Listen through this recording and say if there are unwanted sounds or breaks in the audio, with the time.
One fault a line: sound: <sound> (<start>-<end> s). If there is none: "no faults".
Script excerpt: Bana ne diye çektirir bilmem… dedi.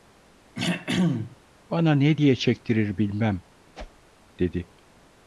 sound: throat clearing (0.6-1.4 s)
sound: whoosh (3.7-4.1 s)